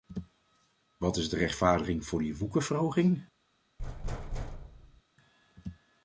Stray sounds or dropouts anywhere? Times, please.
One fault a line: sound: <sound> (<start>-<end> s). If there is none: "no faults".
sound: thud (3.8-5.0 s)